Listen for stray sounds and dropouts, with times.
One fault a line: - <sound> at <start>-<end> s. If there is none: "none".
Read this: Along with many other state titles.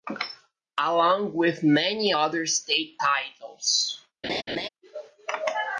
- laugh at 4.2-4.7 s